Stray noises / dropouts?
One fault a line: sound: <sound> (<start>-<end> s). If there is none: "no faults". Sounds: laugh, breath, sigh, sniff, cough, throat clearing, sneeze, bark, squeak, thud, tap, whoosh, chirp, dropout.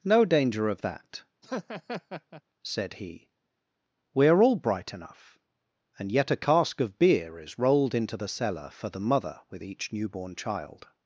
sound: laugh (1.4-2.4 s)